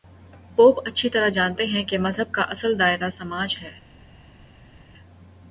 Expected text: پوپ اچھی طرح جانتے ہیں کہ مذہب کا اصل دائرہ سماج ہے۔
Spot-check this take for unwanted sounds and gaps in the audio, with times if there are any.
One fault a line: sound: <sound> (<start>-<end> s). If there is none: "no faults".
no faults